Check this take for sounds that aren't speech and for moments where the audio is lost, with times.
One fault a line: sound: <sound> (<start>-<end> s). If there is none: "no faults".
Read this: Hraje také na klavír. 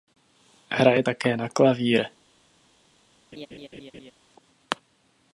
sound: laugh (3.3-4.1 s)